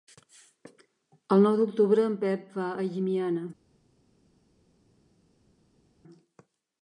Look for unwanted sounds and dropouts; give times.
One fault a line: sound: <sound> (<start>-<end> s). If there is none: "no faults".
no faults